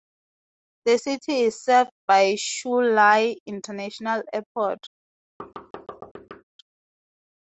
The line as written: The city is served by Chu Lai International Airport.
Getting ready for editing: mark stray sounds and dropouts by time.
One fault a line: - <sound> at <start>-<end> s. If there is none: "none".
- thud at 5.4-6.4 s